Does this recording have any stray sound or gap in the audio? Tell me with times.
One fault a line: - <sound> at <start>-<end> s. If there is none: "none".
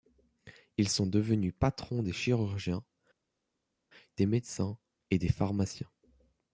none